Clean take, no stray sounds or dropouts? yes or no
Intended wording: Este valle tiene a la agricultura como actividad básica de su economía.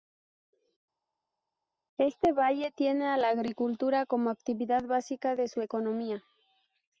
yes